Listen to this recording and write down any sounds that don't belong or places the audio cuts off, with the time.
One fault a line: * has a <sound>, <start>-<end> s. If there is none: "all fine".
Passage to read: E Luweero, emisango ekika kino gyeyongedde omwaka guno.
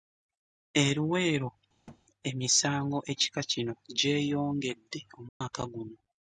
* has a thud, 1.9-2.0 s
* has a dropout, 5.3-5.4 s